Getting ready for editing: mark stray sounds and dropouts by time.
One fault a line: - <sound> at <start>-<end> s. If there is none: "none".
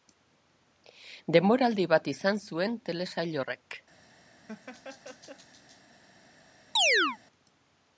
- laugh at 4.5-5.8 s
- chirp at 6.8-7.2 s